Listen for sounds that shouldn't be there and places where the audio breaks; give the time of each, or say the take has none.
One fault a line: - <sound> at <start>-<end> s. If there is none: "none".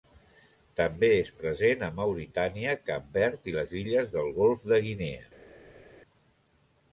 none